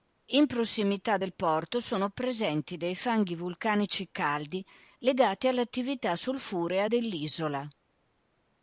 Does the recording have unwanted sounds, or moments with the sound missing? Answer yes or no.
no